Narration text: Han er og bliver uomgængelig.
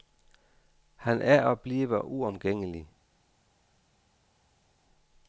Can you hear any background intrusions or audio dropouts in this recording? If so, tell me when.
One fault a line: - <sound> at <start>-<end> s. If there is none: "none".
none